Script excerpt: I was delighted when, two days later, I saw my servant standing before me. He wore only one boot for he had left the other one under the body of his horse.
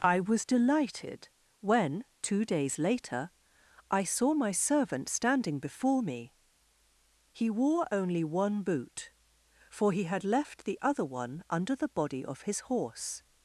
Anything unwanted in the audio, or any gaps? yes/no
no